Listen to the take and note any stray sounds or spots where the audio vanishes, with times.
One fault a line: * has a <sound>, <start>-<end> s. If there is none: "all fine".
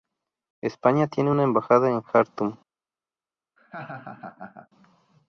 * has a laugh, 3.6-4.7 s